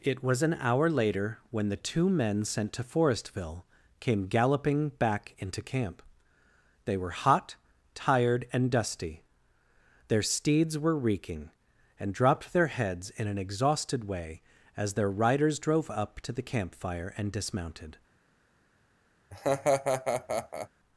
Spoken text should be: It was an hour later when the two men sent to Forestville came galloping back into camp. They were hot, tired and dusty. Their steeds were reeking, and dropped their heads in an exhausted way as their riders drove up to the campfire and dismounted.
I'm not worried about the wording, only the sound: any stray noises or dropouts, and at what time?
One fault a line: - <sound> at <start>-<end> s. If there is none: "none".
- laugh at 19.3-20.7 s